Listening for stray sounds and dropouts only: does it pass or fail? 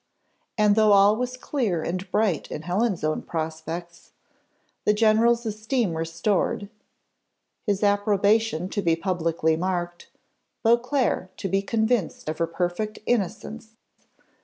pass